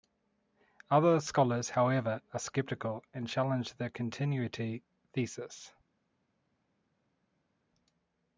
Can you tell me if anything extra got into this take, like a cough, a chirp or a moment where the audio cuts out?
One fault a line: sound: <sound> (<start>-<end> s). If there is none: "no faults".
no faults